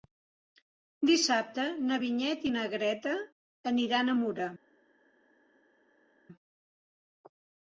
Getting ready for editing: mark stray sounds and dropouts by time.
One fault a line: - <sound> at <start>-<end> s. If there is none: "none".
none